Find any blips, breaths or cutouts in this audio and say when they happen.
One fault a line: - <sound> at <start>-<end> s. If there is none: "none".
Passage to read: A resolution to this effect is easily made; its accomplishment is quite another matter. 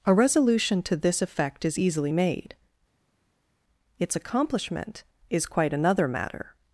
none